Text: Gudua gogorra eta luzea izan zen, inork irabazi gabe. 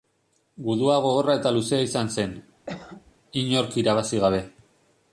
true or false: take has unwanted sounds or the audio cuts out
true